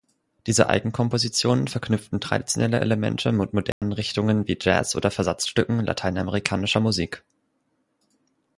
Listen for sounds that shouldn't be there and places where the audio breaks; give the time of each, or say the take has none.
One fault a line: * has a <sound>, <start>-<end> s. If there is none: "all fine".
* has a dropout, 3.7-3.8 s